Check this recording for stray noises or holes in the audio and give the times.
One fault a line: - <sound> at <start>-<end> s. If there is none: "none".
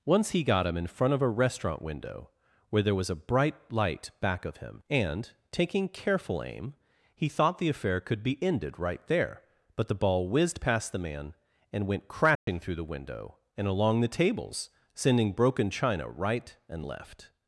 - dropout at 12.4-12.5 s